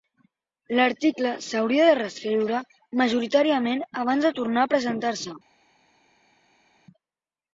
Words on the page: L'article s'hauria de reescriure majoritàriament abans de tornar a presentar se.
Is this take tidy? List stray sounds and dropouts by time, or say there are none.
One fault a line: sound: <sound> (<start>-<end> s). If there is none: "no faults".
no faults